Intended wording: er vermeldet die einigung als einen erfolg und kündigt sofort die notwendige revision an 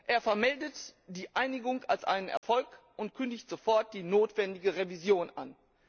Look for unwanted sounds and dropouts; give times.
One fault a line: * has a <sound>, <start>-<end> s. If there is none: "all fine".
* has a dropout, 2.4-2.4 s